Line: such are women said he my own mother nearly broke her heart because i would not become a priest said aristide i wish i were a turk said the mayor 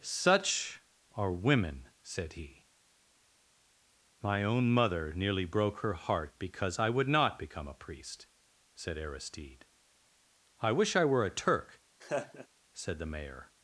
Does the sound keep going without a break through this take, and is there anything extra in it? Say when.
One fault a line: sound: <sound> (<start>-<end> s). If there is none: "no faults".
sound: laugh (12.0-12.5 s)